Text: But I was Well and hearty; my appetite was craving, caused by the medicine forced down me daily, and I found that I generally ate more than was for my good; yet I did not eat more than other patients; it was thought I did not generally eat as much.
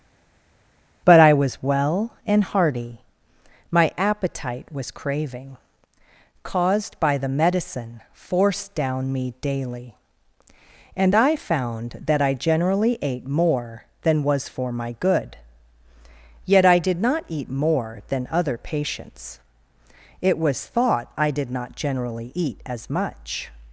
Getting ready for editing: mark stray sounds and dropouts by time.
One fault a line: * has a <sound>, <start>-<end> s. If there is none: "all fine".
all fine